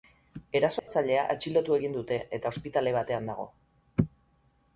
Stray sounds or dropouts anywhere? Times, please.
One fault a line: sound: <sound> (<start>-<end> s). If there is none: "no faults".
sound: dropout (0.8-0.9 s)